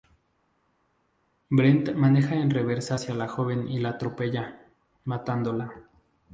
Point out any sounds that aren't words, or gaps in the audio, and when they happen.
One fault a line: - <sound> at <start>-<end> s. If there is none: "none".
none